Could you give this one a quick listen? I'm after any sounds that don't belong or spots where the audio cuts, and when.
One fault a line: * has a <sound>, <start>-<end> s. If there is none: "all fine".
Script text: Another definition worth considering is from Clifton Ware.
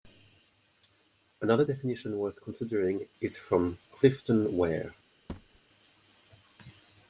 * has a thud, 5.3-5.6 s